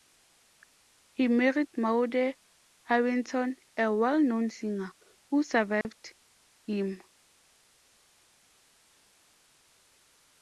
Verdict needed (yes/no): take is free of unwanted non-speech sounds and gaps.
no